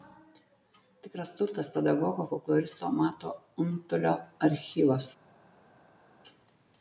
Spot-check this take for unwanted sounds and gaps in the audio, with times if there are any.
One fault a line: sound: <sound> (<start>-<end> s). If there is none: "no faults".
no faults